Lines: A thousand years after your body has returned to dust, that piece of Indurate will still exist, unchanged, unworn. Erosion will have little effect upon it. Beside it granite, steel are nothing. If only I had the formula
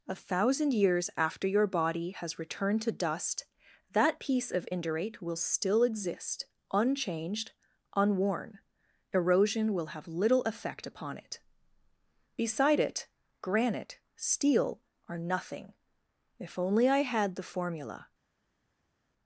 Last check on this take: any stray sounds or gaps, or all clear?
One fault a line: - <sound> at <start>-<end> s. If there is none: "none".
none